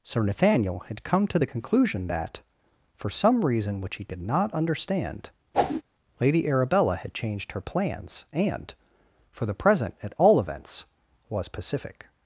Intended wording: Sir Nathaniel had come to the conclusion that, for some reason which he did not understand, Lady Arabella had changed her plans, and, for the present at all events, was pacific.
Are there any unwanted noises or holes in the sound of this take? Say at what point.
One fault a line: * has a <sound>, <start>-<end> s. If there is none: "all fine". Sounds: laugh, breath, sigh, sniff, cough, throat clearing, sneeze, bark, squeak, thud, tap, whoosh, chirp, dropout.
* has a whoosh, 5.5-5.8 s